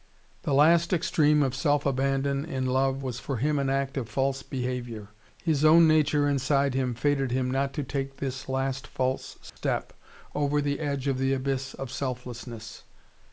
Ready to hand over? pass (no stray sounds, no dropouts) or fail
fail